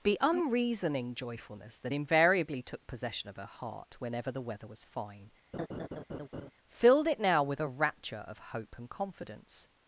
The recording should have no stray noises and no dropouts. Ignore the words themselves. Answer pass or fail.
fail